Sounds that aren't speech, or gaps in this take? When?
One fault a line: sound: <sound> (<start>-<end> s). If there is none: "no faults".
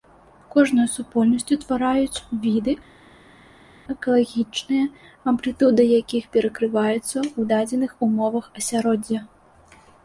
no faults